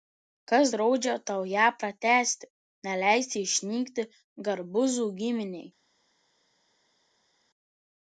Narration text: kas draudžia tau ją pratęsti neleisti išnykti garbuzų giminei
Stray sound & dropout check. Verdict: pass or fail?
pass